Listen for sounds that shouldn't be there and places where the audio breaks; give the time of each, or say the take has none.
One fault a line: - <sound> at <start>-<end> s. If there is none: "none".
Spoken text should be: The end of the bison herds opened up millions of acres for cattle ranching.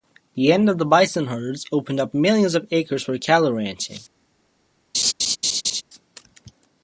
- laugh at 4.9-5.8 s